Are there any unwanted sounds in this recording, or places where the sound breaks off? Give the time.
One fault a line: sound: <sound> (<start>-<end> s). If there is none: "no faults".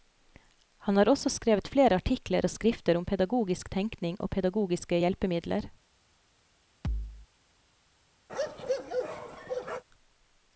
sound: thud (6.8-7.3 s)
sound: bark (8.3-9.8 s)